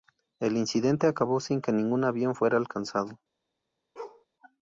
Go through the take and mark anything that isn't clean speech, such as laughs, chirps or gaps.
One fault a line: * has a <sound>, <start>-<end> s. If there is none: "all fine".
* has a bark, 4.0-4.3 s